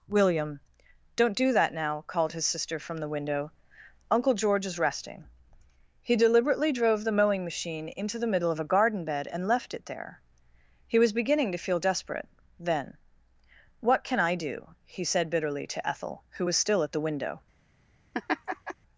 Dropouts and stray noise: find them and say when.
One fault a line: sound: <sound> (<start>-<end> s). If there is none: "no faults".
sound: laugh (18.1-18.7 s)